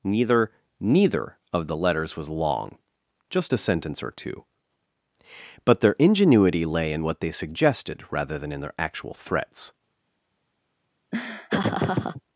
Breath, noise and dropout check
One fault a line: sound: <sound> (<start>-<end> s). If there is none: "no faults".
sound: laugh (11.1-12.2 s)